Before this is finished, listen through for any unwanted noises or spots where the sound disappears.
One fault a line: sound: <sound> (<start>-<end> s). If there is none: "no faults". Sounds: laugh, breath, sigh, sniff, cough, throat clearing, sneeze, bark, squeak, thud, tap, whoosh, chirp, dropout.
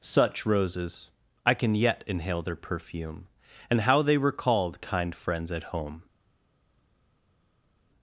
no faults